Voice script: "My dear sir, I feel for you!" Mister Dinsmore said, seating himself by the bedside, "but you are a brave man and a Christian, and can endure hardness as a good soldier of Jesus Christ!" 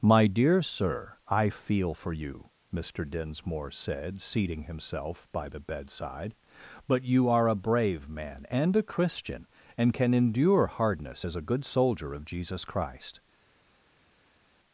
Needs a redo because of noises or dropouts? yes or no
no